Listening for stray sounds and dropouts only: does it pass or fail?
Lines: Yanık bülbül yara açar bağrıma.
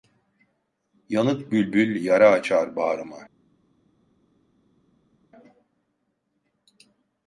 pass